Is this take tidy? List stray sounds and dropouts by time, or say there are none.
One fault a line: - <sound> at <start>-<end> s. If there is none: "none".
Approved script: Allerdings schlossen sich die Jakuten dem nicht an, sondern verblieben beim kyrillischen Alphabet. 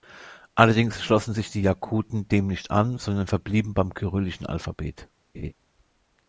- laugh at 5.3-5.5 s